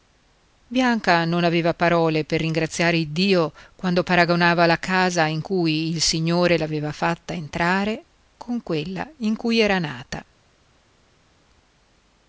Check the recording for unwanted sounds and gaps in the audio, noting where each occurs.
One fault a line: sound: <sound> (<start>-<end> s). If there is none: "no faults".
no faults